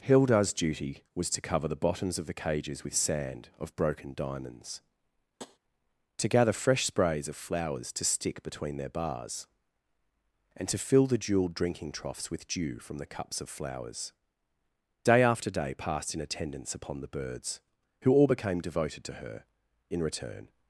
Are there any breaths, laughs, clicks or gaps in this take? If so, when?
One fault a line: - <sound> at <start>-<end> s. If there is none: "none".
- tap at 5.4-5.6 s